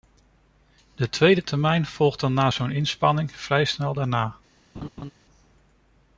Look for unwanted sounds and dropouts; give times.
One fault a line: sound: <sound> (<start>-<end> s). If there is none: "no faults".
sound: laugh (4.7-5.1 s)